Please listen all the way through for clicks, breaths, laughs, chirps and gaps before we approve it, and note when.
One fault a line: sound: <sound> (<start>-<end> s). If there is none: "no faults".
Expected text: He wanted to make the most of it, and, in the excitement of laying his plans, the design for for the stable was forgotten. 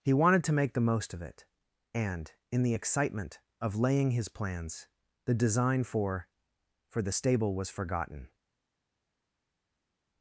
no faults